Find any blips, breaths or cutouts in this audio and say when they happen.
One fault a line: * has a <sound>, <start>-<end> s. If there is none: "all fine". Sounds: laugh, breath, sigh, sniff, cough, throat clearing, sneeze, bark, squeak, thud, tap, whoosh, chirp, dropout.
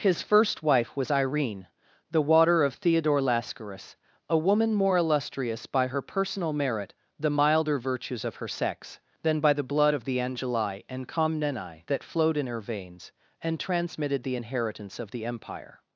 all fine